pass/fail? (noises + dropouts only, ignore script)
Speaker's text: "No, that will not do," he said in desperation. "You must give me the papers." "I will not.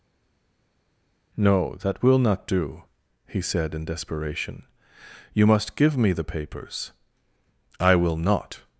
pass